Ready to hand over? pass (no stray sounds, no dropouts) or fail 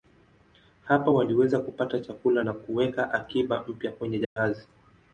fail